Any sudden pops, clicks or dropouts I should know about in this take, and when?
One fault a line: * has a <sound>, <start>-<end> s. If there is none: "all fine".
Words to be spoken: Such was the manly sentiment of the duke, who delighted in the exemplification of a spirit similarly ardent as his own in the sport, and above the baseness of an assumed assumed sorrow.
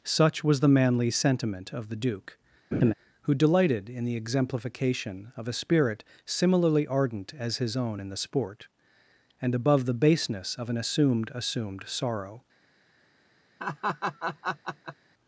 * has a laugh, 2.7-2.9 s
* has a laugh, 13.6-15.0 s